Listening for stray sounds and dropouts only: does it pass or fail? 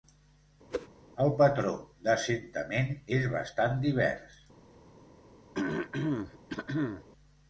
fail